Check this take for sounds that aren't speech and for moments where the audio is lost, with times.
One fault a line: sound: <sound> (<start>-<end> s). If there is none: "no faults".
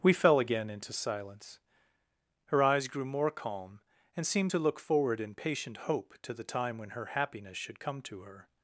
no faults